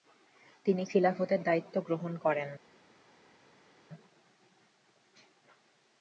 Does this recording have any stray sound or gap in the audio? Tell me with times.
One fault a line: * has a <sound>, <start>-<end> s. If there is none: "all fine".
all fine